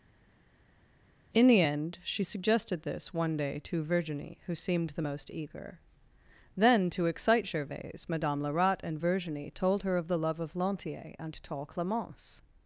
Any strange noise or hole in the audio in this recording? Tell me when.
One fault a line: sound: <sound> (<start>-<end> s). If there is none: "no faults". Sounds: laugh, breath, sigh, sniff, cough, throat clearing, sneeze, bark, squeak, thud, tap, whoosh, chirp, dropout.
no faults